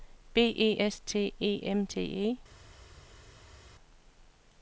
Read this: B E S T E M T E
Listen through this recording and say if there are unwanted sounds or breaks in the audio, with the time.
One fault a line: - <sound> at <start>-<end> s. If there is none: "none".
none